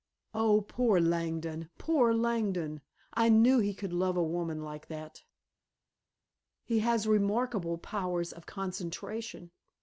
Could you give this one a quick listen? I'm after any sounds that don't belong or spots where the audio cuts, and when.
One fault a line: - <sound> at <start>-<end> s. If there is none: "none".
none